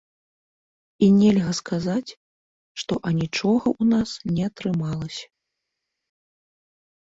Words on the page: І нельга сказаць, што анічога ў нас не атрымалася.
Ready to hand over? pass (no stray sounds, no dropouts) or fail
pass